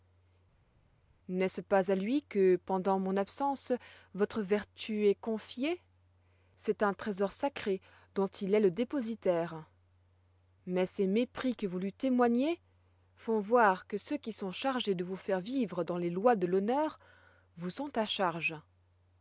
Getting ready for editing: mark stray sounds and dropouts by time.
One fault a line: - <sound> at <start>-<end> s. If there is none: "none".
none